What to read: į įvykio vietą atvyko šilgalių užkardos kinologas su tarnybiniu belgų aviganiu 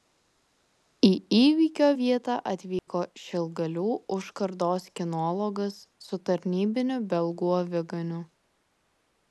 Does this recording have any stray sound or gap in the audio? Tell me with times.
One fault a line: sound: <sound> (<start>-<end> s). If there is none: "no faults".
sound: dropout (2.8-2.9 s)